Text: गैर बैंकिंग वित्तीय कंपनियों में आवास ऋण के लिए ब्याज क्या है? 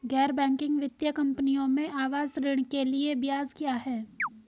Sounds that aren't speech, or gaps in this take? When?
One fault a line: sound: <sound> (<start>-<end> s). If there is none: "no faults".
sound: chirp (4.2-4.3 s)